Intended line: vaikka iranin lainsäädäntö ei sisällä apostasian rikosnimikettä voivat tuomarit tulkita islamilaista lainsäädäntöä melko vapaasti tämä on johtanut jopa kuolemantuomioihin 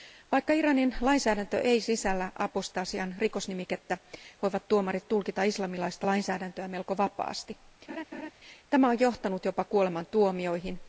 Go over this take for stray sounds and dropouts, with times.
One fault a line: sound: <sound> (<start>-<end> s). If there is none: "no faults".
sound: laugh (7.9-8.3 s)